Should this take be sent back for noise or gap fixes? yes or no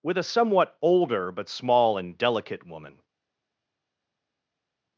no